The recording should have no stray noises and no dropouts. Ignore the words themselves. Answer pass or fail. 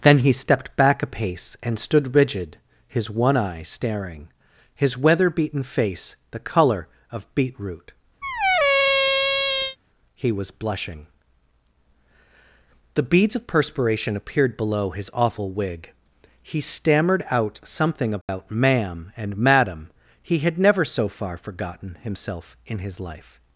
fail